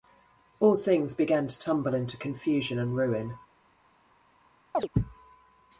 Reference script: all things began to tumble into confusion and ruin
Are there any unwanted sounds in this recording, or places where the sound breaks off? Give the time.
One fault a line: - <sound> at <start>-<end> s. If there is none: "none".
- chirp at 4.7-4.9 s